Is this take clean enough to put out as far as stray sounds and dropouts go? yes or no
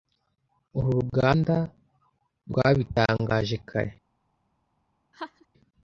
no